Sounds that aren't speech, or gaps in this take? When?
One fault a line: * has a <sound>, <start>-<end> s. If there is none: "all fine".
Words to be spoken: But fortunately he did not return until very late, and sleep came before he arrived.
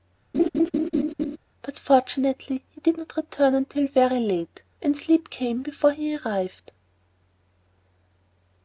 * has a laugh, 0.3-1.4 s